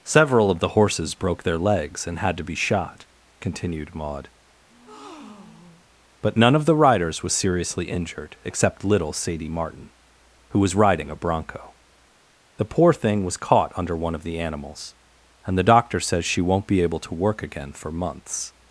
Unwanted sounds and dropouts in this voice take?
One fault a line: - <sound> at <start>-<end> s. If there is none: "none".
- breath at 4.7-5.9 s